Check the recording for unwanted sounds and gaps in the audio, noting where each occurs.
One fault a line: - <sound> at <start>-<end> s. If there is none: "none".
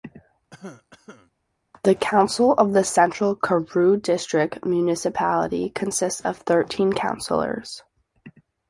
- cough at 0.5-1.3 s